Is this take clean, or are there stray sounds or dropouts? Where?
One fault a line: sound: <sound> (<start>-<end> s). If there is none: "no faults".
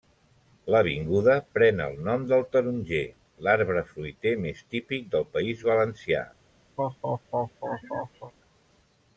sound: laugh (6.8-8.3 s)